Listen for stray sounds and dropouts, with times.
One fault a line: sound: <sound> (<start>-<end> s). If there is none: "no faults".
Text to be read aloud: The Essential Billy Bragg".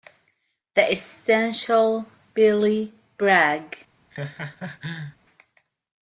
sound: laugh (4.1-5.2 s)